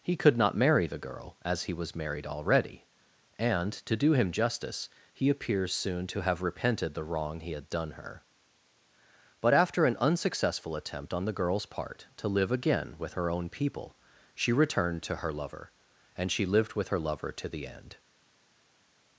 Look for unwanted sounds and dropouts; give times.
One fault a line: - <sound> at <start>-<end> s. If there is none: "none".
none